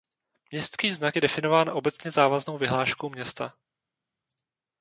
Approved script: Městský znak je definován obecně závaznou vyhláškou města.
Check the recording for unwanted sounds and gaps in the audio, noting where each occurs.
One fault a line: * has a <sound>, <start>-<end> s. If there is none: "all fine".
all fine